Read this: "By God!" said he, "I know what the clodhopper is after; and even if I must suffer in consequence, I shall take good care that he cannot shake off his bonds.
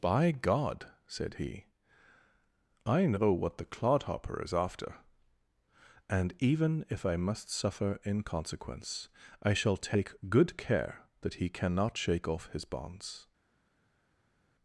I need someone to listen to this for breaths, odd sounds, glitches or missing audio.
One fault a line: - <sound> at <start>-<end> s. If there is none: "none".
none